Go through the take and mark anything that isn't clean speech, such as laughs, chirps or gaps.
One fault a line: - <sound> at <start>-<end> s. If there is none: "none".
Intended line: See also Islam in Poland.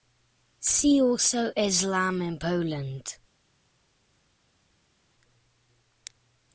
none